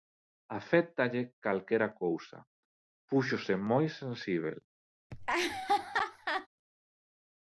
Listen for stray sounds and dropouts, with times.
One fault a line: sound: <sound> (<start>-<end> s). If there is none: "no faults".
sound: laugh (5.1-6.5 s)